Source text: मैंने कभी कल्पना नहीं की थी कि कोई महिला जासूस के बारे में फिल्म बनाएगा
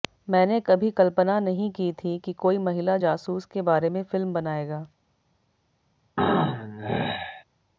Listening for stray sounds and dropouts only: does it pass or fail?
fail